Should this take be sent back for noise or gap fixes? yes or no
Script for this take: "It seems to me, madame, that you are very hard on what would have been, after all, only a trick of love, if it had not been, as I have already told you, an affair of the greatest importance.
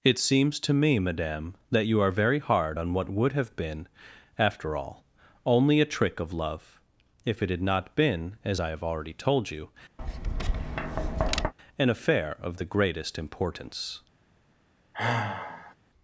yes